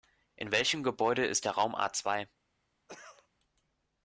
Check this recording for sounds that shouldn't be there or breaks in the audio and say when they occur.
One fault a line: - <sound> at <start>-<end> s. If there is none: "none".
- cough at 2.9-3.3 s